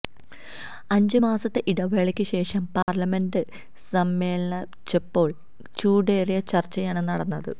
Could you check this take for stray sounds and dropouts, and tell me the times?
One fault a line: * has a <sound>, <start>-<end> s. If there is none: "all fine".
* has a dropout, 2.8-2.9 s